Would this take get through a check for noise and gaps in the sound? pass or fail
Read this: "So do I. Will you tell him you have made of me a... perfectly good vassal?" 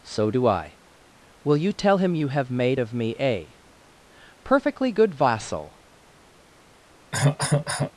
fail